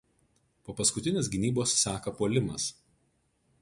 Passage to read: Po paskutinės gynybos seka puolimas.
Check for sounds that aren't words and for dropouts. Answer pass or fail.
pass